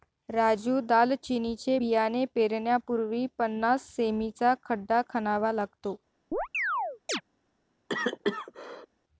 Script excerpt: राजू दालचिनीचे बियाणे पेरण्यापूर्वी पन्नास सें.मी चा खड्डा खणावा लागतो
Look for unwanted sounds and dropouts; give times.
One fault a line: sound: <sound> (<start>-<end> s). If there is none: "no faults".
sound: chirp (6.3-7.2 s)
sound: cough (7.9-8.9 s)